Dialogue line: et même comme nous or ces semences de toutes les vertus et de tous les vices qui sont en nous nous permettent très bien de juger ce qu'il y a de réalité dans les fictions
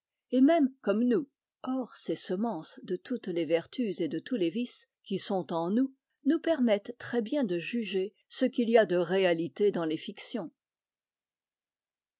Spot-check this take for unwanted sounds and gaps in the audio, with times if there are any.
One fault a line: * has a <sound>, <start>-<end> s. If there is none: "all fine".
all fine